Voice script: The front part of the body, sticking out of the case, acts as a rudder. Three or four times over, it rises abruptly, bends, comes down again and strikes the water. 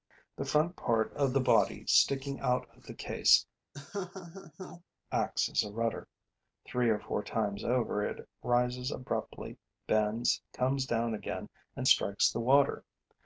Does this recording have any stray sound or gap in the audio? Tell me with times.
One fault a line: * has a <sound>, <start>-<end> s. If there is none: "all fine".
* has a laugh, 3.7-4.8 s